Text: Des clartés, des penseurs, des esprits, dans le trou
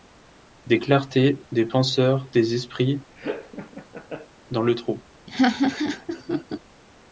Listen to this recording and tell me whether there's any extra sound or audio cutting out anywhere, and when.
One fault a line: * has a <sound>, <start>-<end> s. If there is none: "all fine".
* has a laugh, 3.2-4.3 s
* has a laugh, 5.3-6.6 s